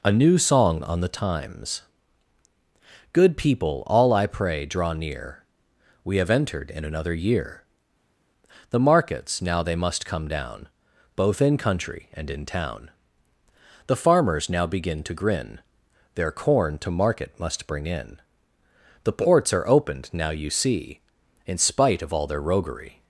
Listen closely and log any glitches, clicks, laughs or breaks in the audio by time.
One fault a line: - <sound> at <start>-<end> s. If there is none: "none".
none